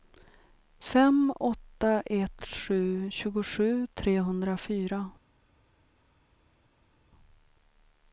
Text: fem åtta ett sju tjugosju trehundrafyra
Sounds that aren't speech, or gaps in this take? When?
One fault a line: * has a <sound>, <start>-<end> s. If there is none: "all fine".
all fine